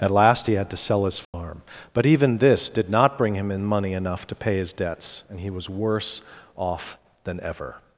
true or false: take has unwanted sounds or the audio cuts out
true